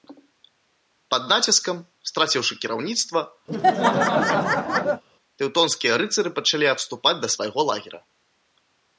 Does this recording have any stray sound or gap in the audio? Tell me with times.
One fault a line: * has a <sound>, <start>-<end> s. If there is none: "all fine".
* has a laugh, 3.5-5.0 s